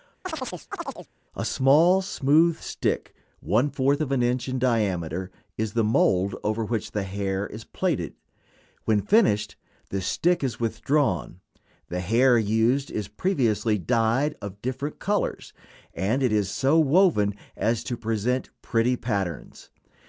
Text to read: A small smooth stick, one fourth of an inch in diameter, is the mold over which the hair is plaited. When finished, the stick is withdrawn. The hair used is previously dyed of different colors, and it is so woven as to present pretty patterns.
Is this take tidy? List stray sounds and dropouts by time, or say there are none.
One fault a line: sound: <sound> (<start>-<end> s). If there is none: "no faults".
sound: chirp (0.2-1.1 s)